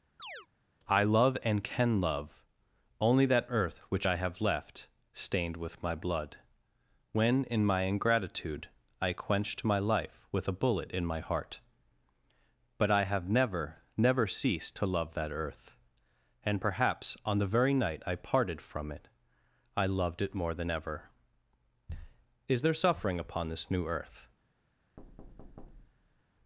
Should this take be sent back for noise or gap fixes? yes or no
yes